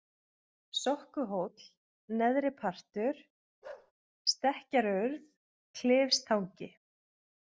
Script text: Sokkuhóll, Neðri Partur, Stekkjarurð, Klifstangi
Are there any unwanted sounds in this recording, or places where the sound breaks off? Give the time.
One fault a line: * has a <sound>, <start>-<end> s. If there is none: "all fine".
* has a bark, 3.6-3.9 s